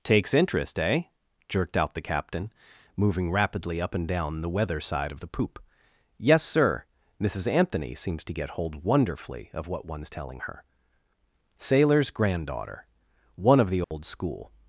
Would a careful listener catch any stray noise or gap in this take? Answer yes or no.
yes